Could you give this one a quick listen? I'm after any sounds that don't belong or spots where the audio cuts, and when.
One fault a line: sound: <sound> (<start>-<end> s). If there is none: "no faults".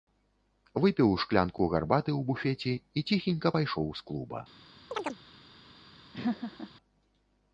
sound: chirp (4.9-5.2 s)
sound: laugh (6.1-6.7 s)